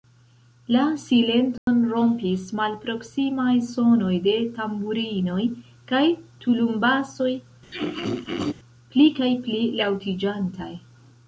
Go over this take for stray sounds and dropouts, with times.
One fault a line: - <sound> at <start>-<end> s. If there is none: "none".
- dropout at 1.6-1.7 s
- throat clearing at 7.7-8.5 s